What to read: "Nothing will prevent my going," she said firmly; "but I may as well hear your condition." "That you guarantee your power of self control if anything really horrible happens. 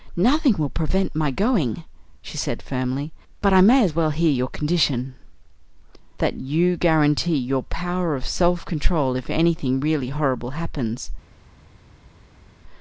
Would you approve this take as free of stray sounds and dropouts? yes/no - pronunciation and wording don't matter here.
yes